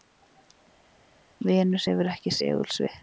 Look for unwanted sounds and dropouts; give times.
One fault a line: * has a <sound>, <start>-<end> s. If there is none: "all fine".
all fine